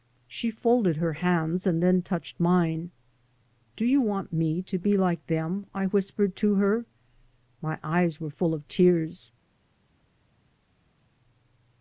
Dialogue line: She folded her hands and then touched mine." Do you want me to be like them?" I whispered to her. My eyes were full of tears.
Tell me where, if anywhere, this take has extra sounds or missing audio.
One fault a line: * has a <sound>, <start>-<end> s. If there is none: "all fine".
all fine